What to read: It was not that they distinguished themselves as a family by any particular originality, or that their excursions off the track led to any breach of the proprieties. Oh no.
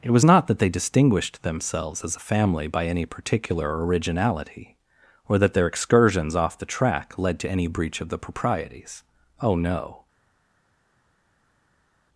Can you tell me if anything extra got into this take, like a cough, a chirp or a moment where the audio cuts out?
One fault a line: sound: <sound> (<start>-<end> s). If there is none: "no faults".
no faults